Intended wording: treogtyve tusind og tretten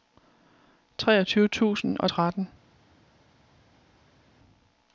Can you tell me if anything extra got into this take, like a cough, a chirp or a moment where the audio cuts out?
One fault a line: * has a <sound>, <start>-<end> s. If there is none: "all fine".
all fine